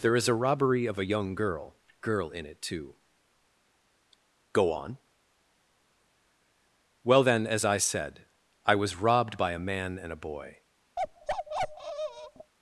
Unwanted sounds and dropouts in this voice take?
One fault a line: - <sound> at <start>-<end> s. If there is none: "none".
- bark at 11.0-12.5 s